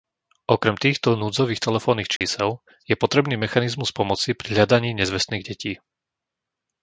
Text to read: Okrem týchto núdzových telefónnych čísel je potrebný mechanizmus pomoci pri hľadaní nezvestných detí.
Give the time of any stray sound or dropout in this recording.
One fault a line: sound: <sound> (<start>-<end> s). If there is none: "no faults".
sound: dropout (2.2-2.2 s)